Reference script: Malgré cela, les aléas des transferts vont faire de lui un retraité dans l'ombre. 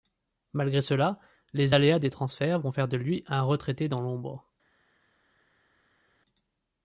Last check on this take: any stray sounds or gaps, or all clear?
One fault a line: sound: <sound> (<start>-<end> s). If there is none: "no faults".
no faults